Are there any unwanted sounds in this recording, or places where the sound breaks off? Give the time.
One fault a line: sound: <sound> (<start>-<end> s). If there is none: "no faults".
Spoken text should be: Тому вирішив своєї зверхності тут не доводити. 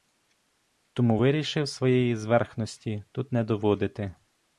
no faults